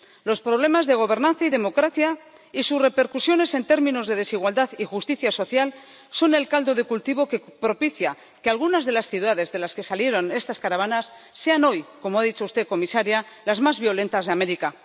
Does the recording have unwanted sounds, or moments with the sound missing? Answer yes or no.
no